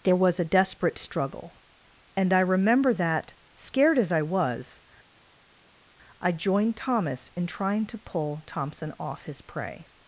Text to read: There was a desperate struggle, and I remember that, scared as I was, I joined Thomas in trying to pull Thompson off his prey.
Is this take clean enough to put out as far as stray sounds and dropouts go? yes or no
yes